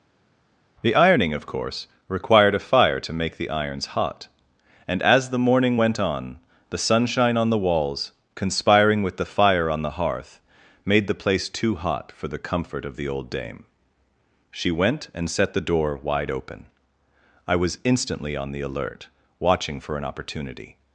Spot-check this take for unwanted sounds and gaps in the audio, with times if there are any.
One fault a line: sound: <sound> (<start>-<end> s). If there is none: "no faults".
no faults